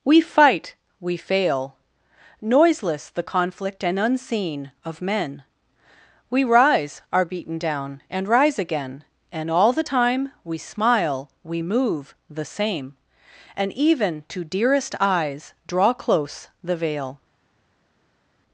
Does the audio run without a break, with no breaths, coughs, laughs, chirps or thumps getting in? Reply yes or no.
yes